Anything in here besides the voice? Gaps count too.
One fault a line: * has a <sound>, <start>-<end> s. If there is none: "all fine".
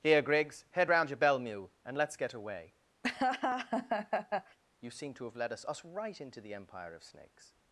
* has a laugh, 3.0-4.6 s